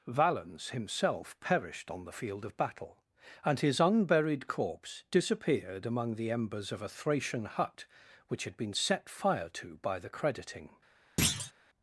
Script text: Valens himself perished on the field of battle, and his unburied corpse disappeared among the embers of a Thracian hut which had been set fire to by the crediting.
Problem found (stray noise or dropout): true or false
true